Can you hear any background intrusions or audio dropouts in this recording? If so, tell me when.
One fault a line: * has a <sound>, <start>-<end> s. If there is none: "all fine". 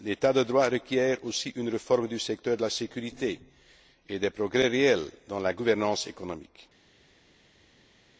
all fine